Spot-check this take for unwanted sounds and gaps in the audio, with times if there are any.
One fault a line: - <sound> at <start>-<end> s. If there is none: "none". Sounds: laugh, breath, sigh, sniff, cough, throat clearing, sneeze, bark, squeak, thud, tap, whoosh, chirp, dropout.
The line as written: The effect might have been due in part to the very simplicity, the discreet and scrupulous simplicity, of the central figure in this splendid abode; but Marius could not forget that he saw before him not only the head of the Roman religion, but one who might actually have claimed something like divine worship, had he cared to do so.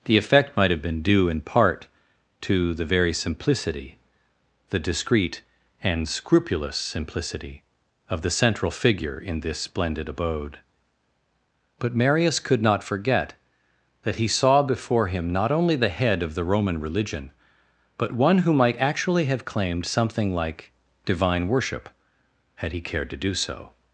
none